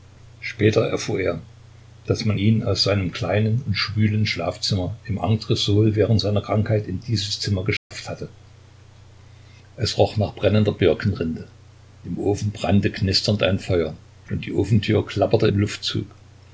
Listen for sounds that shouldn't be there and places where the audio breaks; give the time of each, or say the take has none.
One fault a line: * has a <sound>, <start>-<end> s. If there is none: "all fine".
* has a dropout, 7.8-7.9 s